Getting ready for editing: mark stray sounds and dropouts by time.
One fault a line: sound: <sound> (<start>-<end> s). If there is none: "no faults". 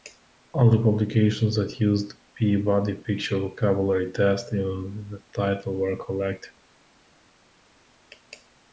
no faults